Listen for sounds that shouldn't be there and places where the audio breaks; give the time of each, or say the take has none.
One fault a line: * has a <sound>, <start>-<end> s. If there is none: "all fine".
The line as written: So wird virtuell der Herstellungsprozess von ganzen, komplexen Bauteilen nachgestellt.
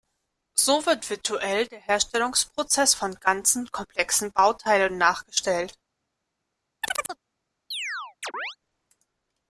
* has a chirp, 6.8-7.2 s
* has a chirp, 7.7-8.6 s